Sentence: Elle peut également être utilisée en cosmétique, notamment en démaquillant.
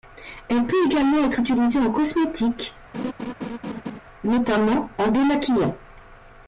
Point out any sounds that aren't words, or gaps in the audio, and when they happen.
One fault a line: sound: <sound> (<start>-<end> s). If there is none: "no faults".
sound: laugh (2.9-4.0 s)